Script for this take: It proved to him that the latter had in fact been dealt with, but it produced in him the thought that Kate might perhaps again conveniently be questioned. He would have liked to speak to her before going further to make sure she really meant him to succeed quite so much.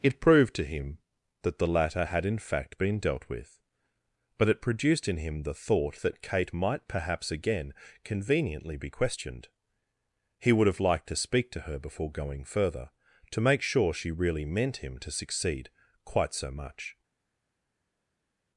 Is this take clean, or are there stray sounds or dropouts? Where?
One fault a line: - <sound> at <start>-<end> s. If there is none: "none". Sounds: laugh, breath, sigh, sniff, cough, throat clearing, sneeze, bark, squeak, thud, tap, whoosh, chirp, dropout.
none